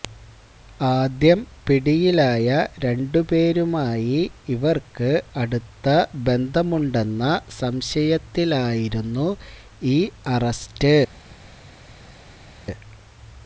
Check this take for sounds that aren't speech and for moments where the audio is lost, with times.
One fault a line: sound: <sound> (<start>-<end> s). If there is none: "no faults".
no faults